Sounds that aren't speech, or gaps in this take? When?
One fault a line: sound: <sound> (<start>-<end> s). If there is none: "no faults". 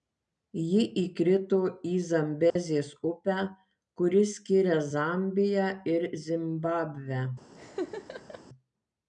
sound: dropout (2.5-2.6 s)
sound: laugh (7.5-8.4 s)